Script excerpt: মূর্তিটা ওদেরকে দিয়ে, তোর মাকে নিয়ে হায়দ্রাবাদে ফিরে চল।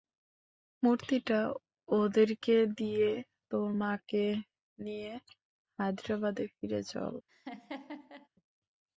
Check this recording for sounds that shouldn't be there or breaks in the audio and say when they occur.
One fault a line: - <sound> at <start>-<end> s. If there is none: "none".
- laugh at 7.3-8.3 s